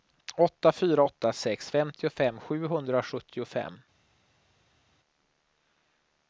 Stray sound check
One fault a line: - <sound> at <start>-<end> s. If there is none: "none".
none